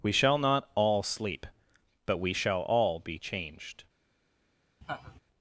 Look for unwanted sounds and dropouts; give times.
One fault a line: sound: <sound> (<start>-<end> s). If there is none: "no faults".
sound: laugh (4.8-5.2 s)